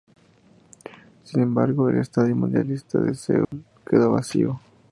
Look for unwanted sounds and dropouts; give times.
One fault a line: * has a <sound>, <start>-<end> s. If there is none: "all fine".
* has a dropout, 3.4-3.5 s